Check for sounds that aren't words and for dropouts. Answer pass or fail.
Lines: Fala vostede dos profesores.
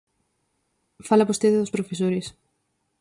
pass